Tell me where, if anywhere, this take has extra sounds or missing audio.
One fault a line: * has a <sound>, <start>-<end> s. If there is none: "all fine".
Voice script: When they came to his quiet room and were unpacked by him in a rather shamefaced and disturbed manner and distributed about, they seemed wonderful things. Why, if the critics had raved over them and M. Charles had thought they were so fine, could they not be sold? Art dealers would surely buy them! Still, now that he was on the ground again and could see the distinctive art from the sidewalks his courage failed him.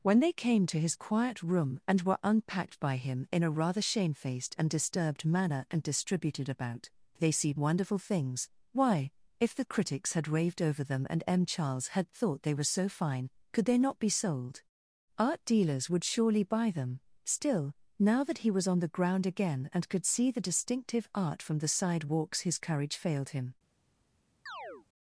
* has a chirp, 24.5-24.9 s